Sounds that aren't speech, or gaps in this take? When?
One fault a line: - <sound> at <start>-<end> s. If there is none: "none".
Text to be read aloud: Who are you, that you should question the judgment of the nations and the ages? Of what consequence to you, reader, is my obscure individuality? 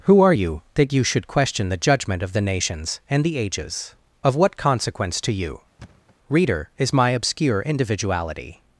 - thud at 5.8-6.2 s